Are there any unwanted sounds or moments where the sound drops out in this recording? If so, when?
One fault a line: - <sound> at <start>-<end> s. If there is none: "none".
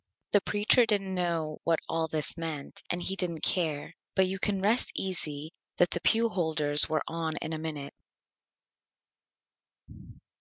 none